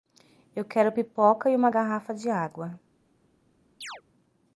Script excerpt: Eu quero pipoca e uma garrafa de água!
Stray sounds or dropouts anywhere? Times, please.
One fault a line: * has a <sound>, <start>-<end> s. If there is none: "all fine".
* has a chirp, 3.8-4.0 s